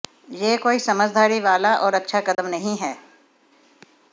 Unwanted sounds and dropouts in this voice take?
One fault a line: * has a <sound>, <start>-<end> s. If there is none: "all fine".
* has a dropout, 2.3-2.4 s